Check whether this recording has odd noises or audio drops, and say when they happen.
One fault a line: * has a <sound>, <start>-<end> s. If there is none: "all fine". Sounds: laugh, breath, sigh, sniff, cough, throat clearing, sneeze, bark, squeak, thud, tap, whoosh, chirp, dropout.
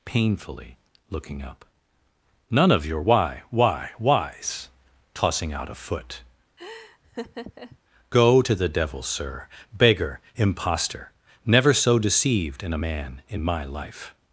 * has a laugh, 6.6-7.8 s